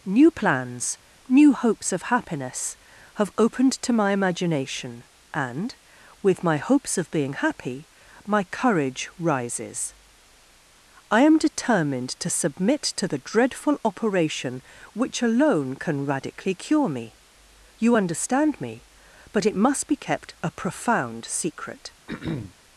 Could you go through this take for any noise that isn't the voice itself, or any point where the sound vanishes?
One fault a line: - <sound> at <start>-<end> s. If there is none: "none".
- throat clearing at 22.1-22.6 s